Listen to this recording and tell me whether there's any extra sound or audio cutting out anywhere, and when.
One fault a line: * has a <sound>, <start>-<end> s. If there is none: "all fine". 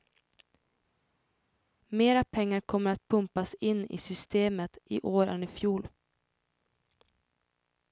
all fine